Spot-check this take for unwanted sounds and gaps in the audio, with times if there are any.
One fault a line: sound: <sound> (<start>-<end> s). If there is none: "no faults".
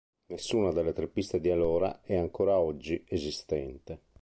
no faults